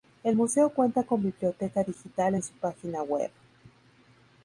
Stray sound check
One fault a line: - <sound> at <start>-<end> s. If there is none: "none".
none